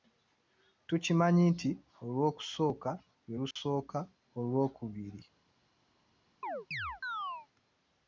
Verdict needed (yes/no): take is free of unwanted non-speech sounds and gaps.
no